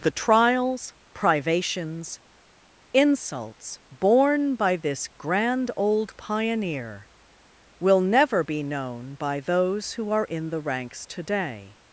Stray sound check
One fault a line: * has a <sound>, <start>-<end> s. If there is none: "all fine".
all fine